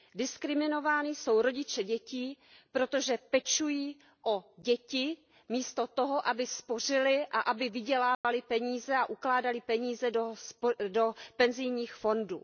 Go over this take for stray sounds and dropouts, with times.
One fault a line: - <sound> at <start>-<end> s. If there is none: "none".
- dropout at 8.1-8.2 s